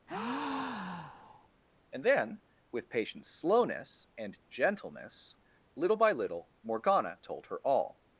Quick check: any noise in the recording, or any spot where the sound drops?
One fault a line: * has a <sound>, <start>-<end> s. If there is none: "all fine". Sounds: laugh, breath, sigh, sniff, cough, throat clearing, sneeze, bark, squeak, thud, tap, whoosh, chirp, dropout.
* has a breath, 0.1-1.5 s